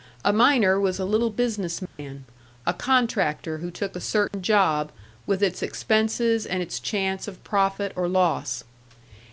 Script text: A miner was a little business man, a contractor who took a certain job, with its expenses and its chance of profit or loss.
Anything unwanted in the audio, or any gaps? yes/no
yes